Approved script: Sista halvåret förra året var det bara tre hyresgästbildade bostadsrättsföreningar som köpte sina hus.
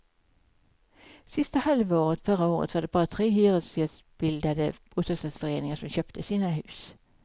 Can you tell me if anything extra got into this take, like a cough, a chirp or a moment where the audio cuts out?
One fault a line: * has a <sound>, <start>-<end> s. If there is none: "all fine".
all fine